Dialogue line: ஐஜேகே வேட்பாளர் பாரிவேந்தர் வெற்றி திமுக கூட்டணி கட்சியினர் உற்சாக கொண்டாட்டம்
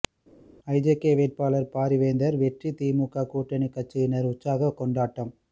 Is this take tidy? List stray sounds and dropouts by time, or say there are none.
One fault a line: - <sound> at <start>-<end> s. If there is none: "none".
none